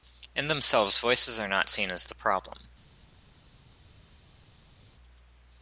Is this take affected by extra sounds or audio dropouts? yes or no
no